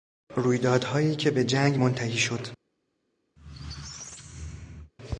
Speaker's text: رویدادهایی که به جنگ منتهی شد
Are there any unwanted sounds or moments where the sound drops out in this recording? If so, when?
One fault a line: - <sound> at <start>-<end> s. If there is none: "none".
- squeak at 3.4-4.9 s